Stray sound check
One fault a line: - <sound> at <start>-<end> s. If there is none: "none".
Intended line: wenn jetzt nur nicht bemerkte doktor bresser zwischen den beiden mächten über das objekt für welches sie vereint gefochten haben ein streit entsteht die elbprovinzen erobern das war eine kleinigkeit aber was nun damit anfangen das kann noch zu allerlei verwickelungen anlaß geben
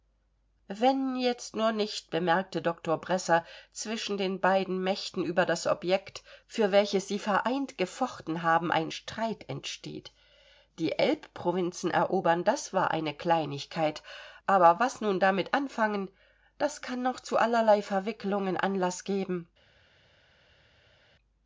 none